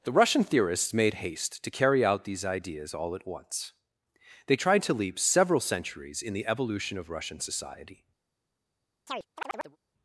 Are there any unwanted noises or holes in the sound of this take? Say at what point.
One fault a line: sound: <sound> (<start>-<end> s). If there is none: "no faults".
sound: chirp (9.1-9.8 s)